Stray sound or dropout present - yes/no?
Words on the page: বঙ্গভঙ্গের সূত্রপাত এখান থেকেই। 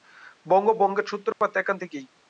yes